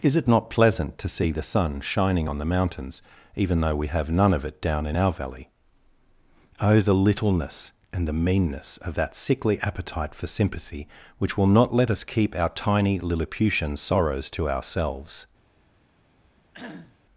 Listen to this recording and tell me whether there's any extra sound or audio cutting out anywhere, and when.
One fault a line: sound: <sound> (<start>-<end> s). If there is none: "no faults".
sound: cough (16.5-17.0 s)